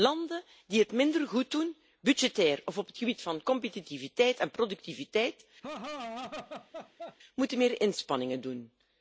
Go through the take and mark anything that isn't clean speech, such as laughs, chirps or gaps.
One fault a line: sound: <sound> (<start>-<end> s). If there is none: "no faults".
sound: laugh (5.6-7.2 s)